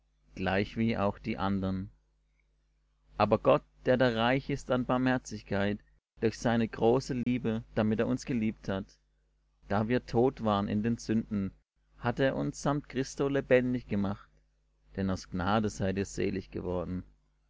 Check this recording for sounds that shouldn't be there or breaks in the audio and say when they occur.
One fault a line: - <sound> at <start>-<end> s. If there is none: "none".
- dropout at 7.2-7.3 s